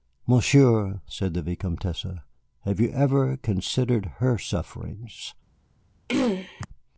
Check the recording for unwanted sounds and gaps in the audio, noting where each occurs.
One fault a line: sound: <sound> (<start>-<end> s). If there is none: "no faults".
sound: throat clearing (6.1-6.7 s)